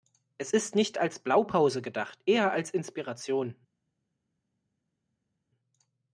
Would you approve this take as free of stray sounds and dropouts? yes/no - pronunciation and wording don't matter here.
yes